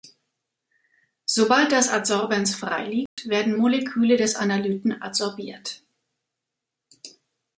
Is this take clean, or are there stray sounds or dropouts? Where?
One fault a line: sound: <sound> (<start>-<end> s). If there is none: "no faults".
sound: dropout (3.1-3.2 s)